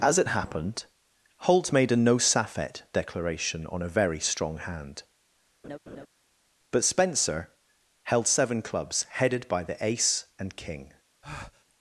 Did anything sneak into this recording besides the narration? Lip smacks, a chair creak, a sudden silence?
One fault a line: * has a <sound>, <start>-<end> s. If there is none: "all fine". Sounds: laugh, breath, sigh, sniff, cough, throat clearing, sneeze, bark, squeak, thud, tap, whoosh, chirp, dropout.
* has a laugh, 5.6-6.1 s
* has a breath, 11.2-11.7 s